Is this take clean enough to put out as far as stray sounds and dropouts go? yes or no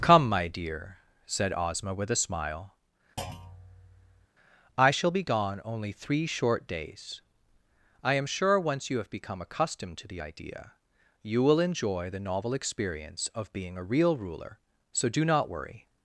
no